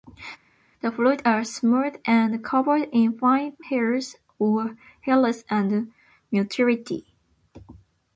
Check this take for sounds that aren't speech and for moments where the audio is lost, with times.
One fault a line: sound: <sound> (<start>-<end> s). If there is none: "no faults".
no faults